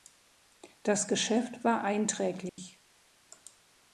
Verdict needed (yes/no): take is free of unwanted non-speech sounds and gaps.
no